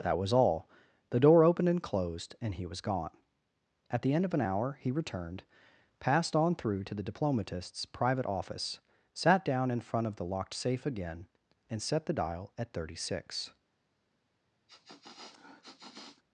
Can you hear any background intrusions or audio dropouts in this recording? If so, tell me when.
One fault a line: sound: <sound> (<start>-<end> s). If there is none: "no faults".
sound: sniff (14.7-16.2 s)